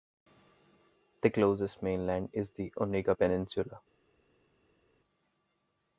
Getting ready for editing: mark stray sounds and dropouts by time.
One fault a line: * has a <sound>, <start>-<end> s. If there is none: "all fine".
all fine